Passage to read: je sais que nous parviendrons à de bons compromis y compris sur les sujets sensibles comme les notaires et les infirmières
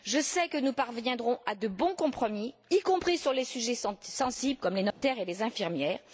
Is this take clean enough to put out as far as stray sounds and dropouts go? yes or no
no